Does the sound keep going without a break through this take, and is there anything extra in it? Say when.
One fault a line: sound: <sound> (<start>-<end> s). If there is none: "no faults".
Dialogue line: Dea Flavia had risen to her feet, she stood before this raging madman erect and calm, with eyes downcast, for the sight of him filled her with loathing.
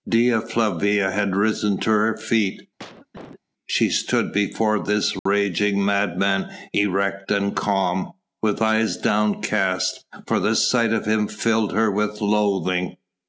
sound: cough (2.8-3.4 s)
sound: dropout (5.2-5.3 s)